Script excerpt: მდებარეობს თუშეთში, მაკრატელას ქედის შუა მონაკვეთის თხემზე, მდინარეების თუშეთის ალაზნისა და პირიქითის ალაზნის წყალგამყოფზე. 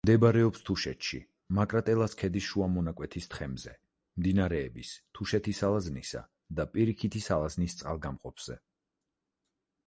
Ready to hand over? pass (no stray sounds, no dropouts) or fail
pass